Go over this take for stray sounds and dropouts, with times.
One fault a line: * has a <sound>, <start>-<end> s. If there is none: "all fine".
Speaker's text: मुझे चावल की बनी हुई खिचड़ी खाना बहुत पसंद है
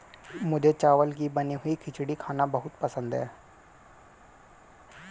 all fine